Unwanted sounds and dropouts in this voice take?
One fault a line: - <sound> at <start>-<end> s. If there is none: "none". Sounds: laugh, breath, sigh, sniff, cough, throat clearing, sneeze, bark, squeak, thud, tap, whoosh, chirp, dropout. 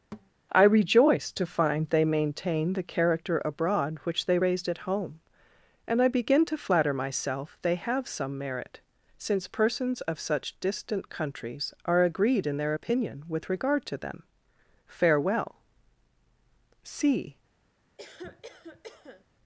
- thud at 0.1-0.3 s
- cough at 18.0-19.2 s